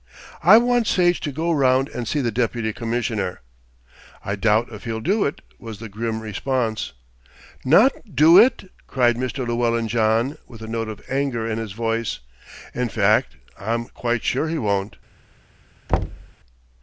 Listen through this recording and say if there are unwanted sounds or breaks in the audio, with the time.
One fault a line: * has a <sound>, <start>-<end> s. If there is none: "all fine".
* has a thud, 15.9-16.3 s